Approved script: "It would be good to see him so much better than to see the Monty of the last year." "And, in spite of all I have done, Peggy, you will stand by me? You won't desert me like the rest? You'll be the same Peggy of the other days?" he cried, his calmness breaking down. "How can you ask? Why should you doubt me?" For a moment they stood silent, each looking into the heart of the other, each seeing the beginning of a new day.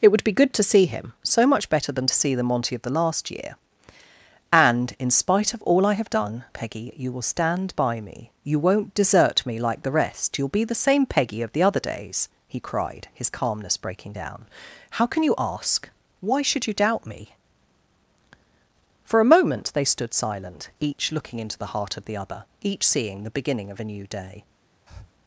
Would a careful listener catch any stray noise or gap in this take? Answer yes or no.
yes